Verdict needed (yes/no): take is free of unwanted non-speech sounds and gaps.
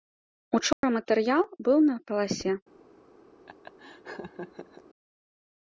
no